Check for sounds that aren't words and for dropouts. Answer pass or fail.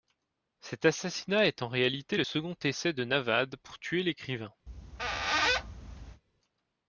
fail